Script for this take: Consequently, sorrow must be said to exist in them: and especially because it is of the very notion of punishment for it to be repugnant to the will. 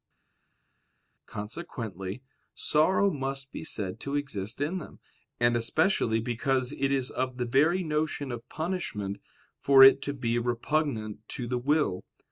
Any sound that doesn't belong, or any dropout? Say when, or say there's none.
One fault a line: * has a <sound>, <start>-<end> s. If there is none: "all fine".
all fine